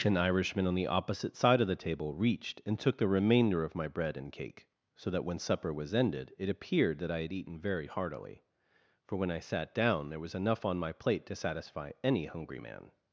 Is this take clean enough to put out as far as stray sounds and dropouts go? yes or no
yes